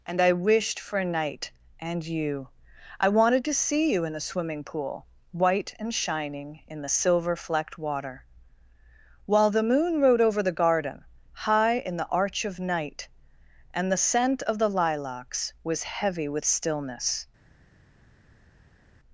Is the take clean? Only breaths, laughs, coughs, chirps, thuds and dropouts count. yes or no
yes